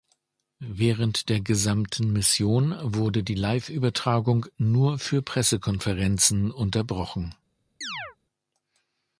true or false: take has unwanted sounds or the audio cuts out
true